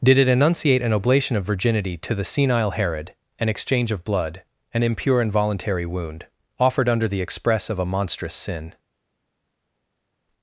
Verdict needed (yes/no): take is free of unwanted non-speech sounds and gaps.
yes